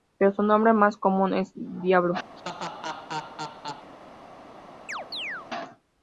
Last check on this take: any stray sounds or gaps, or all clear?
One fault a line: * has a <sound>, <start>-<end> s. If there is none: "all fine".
* has a laugh, 2.4-3.9 s
* has a chirp, 4.9-5.5 s